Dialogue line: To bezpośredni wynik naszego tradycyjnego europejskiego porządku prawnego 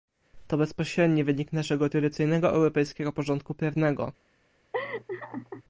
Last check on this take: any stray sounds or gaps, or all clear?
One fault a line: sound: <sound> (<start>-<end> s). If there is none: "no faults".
sound: laugh (4.7-5.6 s)